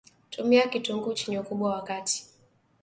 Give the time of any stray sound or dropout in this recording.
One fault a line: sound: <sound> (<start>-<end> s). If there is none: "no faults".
no faults